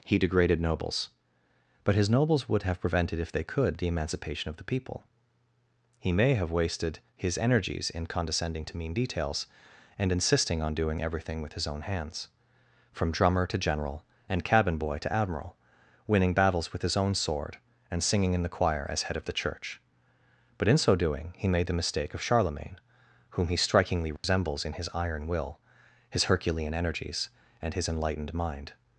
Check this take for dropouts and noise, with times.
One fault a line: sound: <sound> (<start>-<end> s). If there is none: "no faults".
sound: dropout (24.2-24.2 s)